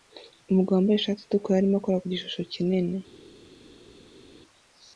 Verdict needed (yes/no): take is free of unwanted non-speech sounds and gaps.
yes